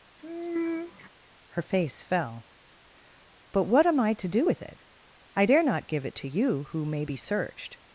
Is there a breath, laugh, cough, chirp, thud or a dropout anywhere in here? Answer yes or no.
yes